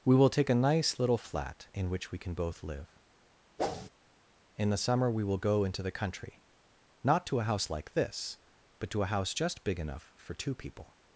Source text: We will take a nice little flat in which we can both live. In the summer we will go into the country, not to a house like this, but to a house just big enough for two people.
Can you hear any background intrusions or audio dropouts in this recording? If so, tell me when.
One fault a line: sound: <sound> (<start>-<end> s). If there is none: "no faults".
sound: whoosh (3.6-3.9 s)